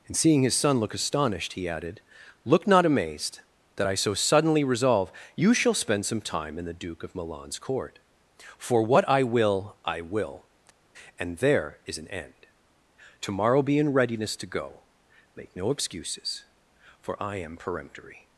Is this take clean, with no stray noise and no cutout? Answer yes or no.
yes